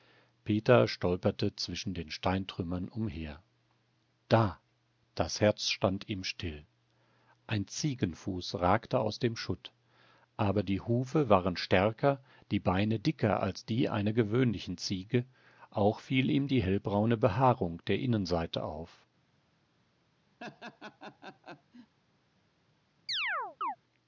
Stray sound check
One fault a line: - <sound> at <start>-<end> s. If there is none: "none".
- laugh at 20.4-22.0 s
- chirp at 23.1-23.8 s